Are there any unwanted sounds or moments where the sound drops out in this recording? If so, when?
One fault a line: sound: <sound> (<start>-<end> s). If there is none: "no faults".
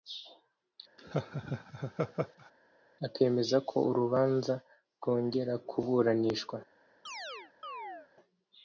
sound: laugh (1.0-2.5 s)
sound: chirp (7.1-8.1 s)